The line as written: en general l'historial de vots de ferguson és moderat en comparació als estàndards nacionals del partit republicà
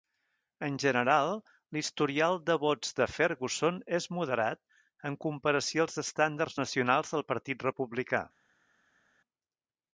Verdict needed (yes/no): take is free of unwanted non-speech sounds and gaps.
yes